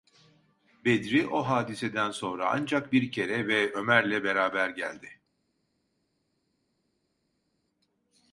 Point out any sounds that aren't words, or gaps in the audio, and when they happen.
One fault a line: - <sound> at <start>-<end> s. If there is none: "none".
none